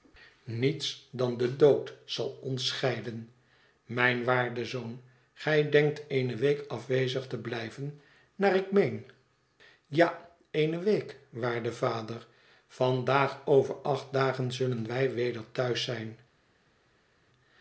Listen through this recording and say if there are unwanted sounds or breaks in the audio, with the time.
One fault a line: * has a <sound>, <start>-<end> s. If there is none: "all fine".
all fine